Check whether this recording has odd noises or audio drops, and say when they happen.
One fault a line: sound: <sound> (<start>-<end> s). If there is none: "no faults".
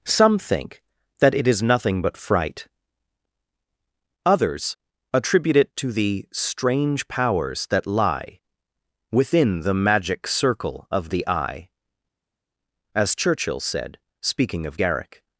no faults